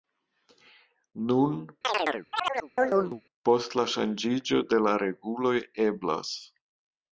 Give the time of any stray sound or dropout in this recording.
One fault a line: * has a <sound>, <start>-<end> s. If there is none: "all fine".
* has a chirp, 1.8-3.2 s